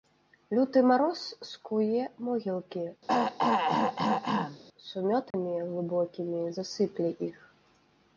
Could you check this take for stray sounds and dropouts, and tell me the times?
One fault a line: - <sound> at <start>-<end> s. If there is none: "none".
- throat clearing at 3.1-4.6 s
- dropout at 5.3-5.3 s